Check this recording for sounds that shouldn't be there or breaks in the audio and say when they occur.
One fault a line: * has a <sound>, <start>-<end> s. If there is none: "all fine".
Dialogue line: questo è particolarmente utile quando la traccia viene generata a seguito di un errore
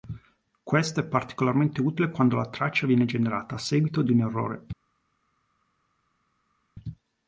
all fine